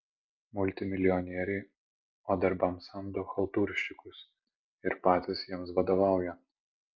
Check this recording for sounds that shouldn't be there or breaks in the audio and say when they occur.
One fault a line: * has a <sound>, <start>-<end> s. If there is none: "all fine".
all fine